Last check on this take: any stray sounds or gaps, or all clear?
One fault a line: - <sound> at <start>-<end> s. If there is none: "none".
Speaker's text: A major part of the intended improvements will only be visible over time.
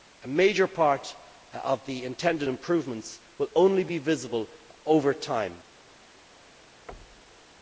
- thud at 6.9-7.5 s